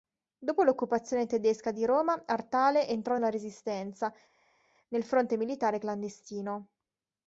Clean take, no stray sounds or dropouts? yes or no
yes